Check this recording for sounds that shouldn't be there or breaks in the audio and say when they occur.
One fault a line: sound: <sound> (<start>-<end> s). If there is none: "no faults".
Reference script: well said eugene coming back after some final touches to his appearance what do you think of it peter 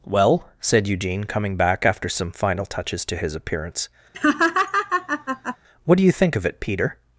sound: laugh (4.1-5.6 s)